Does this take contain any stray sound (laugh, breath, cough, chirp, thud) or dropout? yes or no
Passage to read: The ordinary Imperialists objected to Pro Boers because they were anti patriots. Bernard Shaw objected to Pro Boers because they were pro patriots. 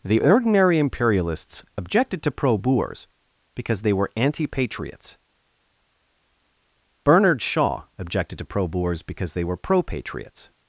no